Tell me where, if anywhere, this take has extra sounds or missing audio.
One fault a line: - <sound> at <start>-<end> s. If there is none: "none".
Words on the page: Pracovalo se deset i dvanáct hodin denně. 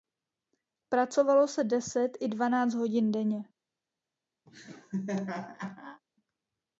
- laugh at 4.5-6.0 s